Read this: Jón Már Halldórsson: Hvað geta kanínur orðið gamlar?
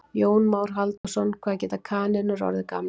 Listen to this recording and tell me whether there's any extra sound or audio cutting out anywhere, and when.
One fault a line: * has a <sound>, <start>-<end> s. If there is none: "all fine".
* has a dropout, 1.0-1.0 s